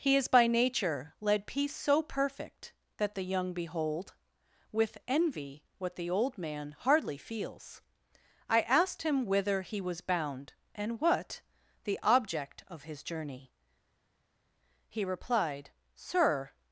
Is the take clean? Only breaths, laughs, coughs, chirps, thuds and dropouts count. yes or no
yes